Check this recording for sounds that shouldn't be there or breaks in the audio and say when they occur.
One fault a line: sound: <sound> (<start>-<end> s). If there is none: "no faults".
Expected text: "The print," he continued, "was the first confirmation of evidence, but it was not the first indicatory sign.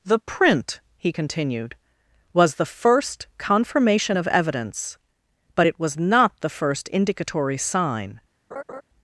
sound: laugh (8.5-8.8 s)